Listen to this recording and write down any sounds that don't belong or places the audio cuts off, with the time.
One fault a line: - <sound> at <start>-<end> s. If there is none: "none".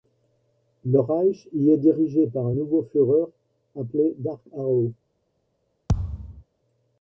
- thud at 5.9-6.4 s